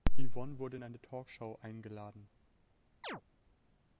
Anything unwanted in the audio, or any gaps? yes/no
yes